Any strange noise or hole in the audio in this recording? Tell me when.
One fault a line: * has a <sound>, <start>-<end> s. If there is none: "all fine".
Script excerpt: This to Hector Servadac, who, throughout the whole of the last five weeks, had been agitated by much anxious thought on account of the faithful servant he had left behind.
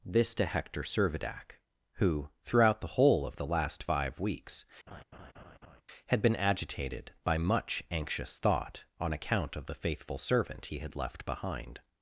* has a laugh, 4.9-5.8 s